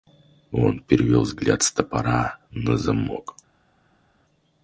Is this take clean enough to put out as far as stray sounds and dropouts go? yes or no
yes